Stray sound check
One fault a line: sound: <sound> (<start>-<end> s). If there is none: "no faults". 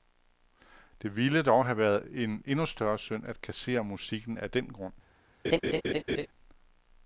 sound: laugh (5.4-6.3 s)